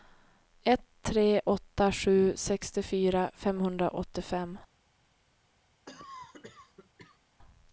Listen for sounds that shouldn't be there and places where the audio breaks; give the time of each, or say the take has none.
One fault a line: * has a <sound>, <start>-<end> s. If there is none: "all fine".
* has a cough, 5.9-7.2 s